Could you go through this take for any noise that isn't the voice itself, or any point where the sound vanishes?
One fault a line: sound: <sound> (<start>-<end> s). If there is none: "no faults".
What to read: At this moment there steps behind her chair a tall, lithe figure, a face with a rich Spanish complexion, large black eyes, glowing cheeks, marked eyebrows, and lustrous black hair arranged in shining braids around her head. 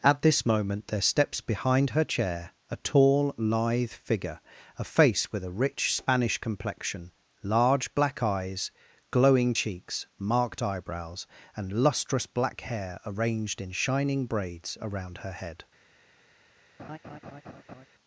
sound: laugh (16.8-17.9 s)